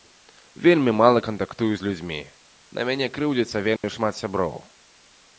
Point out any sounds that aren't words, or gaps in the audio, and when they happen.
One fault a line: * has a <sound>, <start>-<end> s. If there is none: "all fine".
* has a dropout, 3.8-3.8 s